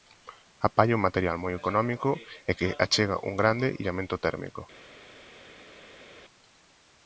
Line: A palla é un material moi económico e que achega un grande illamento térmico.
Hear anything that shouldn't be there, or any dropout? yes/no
no